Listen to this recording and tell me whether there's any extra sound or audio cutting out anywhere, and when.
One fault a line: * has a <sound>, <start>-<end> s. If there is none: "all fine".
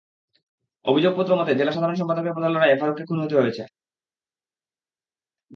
all fine